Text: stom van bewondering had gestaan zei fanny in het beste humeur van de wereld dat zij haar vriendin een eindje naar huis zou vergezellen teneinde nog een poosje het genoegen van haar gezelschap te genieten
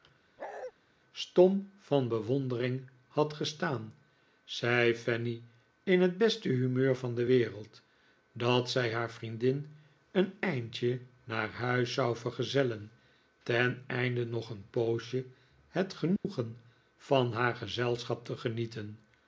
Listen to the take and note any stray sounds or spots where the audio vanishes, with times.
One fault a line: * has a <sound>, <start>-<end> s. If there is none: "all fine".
* has a bark, 0.4-0.7 s
* has a dropout, 16.2-16.2 s